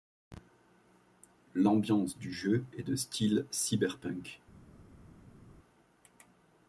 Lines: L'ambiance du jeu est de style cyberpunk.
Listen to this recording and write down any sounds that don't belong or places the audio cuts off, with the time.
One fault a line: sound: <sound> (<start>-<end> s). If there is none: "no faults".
no faults